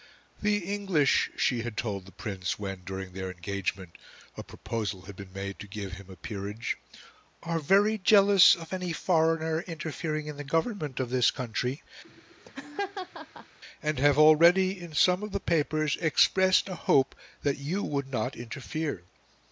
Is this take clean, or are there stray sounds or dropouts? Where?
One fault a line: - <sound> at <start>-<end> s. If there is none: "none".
- laugh at 12.0-13.6 s